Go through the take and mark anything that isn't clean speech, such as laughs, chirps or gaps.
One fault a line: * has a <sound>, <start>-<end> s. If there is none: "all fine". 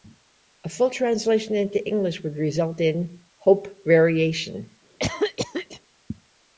* has a cough, 5.0-5.8 s